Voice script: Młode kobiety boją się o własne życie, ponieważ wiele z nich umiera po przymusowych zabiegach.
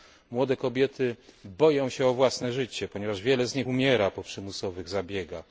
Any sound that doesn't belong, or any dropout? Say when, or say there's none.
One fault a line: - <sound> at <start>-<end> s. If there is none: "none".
none